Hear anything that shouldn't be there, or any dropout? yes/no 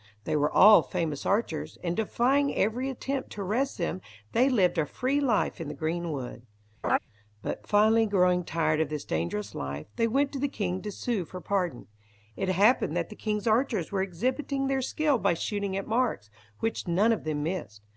yes